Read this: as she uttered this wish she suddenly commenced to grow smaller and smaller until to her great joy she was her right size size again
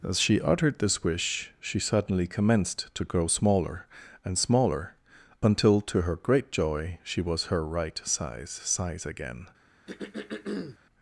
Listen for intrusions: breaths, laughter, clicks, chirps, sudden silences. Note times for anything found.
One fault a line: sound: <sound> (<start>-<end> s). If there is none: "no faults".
sound: throat clearing (9.9-10.8 s)